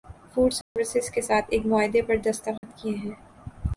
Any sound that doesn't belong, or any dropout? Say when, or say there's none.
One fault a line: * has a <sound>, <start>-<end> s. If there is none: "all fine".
* has a dropout, 0.6-0.8 s
* has a dropout, 2.6-2.6 s